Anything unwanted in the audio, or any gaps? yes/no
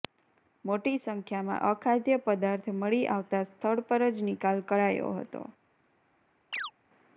yes